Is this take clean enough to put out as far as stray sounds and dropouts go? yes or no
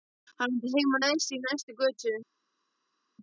yes